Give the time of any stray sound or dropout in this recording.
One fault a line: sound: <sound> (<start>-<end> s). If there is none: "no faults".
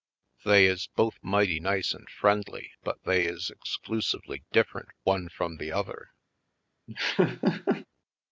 sound: laugh (6.9-7.9 s)